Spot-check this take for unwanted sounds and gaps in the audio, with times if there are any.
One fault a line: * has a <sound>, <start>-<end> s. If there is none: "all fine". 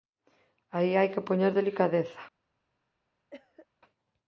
* has a cough, 3.3-3.7 s